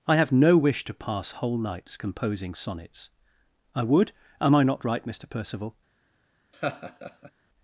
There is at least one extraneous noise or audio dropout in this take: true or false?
true